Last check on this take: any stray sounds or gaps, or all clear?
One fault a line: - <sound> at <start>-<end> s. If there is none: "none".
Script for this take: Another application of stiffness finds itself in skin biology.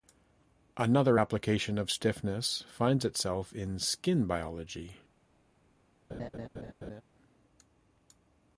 - laugh at 6.1-7.0 s